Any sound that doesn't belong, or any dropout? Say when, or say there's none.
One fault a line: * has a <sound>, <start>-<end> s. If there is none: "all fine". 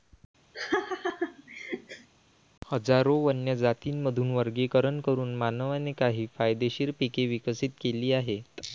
* has a laugh, 0.5-2.1 s